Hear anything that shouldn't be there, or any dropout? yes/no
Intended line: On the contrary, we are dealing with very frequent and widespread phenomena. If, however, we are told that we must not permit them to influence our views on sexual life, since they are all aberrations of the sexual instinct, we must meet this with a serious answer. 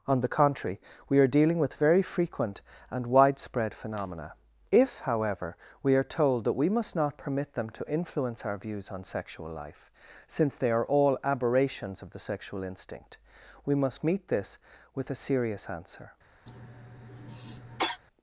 yes